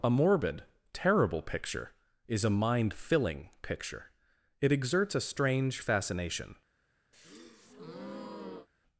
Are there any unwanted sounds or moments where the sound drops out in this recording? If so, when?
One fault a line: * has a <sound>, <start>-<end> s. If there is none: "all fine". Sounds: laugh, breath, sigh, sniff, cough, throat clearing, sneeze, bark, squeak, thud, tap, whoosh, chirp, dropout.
* has a breath, 7.1-8.7 s